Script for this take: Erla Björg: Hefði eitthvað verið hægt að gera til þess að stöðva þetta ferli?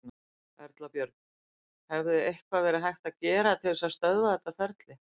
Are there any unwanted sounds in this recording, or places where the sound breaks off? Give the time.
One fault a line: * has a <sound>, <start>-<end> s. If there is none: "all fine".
all fine